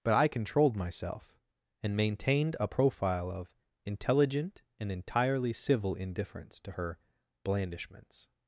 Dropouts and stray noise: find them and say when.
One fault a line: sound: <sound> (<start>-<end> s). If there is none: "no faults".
no faults